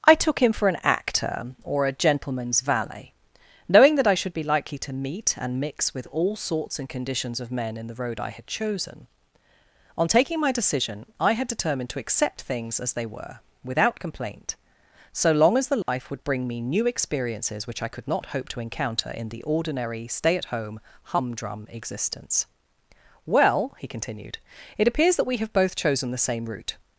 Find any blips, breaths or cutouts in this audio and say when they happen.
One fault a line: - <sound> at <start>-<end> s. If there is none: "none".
- dropout at 15.8-15.9 s